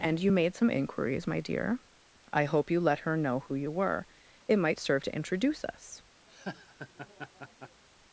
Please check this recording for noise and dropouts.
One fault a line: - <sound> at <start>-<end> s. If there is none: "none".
- laugh at 6.3-7.8 s